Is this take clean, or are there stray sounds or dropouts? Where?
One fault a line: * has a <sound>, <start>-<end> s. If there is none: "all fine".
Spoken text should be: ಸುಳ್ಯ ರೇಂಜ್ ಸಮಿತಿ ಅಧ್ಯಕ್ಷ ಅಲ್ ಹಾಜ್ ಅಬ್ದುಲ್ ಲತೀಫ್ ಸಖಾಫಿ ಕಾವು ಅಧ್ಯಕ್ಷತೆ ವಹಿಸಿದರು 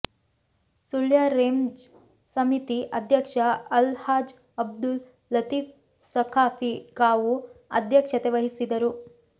all fine